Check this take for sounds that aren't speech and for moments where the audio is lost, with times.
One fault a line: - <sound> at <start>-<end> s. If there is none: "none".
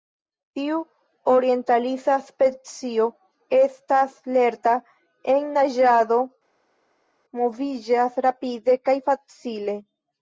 none